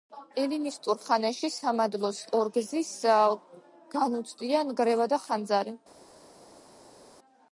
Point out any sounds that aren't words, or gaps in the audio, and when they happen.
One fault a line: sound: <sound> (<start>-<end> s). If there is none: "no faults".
no faults